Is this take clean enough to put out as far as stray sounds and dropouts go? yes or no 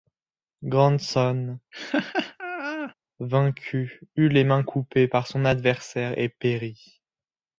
no